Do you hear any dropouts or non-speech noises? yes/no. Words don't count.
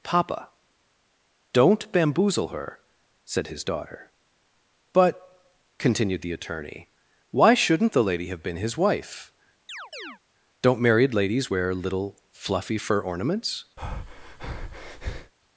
yes